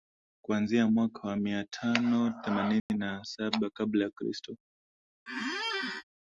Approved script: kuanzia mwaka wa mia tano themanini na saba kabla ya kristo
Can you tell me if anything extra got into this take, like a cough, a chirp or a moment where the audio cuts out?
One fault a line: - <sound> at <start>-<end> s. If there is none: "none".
- dropout at 2.8-2.9 s
- squeak at 5.3-6.0 s